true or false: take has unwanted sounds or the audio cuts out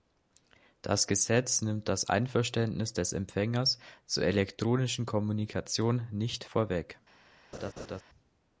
true